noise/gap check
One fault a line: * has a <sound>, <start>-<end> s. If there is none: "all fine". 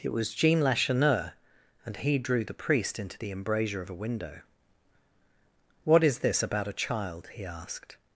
all fine